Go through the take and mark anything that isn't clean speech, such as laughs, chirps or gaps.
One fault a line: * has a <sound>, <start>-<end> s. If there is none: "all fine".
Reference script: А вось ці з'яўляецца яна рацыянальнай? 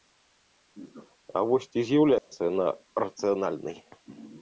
* has a dropout, 2.2-2.3 s